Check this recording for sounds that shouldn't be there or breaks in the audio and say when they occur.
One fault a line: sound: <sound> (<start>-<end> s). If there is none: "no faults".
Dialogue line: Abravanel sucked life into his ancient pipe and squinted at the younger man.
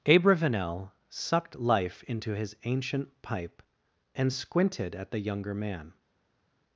no faults